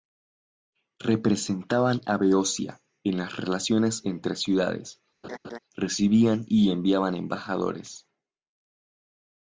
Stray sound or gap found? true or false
true